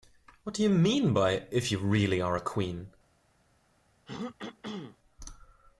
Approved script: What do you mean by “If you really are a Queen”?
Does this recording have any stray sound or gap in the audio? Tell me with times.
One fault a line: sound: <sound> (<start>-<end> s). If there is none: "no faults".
sound: throat clearing (4.1-5.0 s)